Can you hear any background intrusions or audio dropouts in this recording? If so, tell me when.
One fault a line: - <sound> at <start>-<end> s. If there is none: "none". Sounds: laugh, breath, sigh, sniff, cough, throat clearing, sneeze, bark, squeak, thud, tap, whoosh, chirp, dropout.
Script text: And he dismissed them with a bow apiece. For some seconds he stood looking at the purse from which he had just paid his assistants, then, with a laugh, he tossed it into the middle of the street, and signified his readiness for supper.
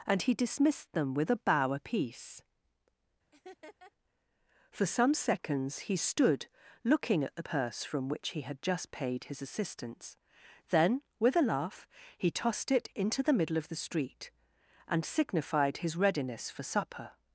- laugh at 3.3-3.9 s